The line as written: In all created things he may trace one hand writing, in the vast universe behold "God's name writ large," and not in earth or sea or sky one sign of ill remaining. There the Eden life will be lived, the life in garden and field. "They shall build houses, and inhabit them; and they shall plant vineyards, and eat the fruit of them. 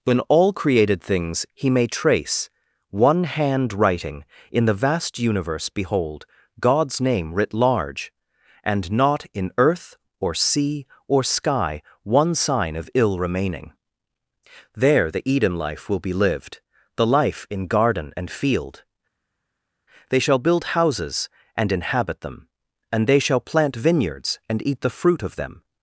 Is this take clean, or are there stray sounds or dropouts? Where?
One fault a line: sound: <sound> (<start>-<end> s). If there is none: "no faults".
no faults